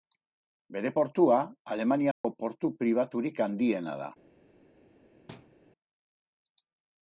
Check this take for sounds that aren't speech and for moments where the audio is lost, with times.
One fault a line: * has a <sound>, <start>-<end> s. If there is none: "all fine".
* has a dropout, 2.1-2.2 s
* has a thud, 5.3-5.6 s